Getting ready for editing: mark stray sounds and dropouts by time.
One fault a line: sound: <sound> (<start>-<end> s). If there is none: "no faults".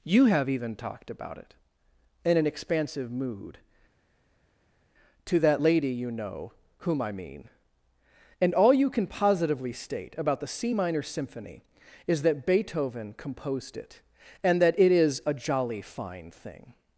no faults